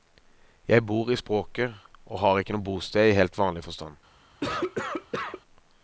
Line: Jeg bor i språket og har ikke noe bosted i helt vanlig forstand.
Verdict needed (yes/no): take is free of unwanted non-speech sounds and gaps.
no